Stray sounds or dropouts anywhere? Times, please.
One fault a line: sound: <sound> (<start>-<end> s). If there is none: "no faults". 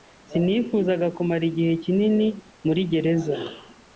no faults